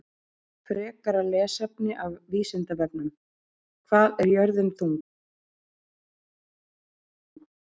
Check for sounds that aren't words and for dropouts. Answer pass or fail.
pass